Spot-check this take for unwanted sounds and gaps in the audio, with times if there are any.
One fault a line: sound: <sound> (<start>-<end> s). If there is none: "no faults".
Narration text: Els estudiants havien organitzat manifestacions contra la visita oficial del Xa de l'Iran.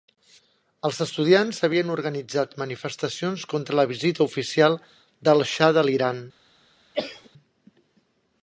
sound: cough (6.9-7.3 s)